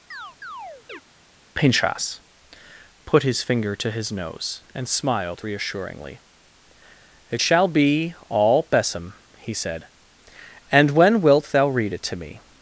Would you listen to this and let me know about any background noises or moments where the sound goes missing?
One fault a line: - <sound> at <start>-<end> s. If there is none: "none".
- chirp at 0.1-1.0 s